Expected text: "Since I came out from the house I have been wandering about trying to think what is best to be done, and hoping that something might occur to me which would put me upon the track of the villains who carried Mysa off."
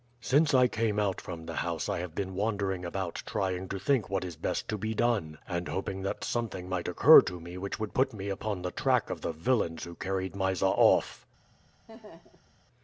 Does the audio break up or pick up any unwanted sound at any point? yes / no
yes